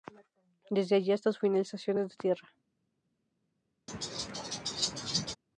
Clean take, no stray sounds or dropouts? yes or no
no